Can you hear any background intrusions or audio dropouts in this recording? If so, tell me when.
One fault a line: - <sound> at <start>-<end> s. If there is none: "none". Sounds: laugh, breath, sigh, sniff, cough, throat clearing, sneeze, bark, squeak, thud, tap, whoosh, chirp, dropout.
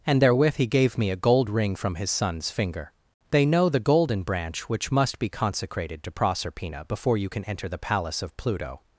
none